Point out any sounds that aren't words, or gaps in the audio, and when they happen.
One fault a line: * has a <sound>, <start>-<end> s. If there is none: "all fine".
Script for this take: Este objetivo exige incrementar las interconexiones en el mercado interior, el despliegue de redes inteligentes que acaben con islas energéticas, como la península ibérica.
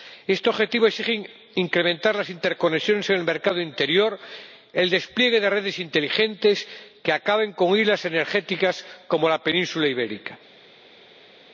all fine